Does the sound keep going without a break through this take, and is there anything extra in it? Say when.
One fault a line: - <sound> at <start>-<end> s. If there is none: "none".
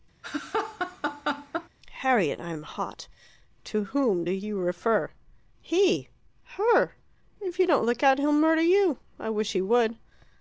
- laugh at 0.2-1.7 s